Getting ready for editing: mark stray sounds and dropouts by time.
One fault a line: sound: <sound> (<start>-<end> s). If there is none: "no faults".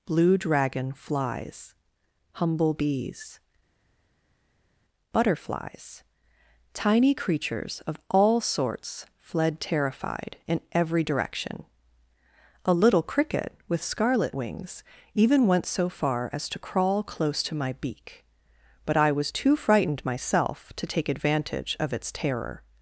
no faults